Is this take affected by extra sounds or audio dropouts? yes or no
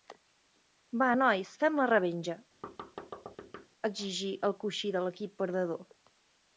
yes